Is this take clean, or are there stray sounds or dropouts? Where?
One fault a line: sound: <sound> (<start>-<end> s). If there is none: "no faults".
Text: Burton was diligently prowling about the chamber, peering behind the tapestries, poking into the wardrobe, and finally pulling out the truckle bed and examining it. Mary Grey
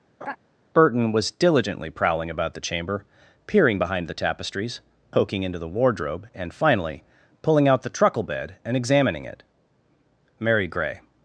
sound: laugh (0.2-0.4 s)